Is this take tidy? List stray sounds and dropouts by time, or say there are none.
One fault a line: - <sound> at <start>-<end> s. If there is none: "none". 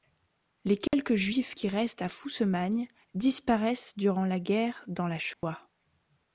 - dropout at 0.9-0.9 s
- dropout at 5.3-5.4 s